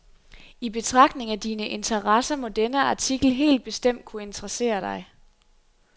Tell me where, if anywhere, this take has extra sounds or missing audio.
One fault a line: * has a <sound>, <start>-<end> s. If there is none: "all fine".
all fine